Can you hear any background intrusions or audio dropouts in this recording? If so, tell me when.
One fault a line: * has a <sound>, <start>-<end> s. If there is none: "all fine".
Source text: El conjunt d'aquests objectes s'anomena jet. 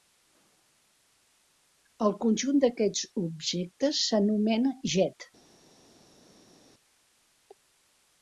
all fine